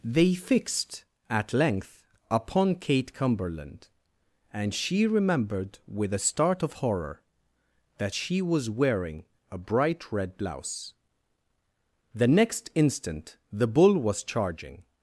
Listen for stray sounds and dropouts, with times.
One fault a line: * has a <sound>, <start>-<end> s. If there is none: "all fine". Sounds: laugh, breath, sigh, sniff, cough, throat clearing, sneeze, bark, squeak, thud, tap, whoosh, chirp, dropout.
all fine